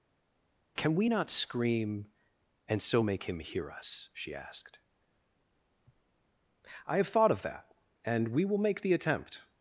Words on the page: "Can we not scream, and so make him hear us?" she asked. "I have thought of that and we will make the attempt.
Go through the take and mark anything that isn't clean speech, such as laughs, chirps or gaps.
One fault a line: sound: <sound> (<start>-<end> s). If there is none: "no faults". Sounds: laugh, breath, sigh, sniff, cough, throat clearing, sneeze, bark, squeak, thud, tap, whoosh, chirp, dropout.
no faults